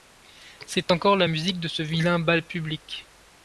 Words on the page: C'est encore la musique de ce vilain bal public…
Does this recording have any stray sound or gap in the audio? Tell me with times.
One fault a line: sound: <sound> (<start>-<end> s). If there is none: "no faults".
no faults